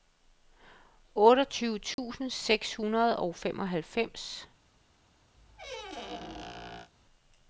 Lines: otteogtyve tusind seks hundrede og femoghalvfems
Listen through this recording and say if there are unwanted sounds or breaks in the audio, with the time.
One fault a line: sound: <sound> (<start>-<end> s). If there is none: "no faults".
sound: dropout (1.9-2.0 s)
sound: squeak (5.4-6.9 s)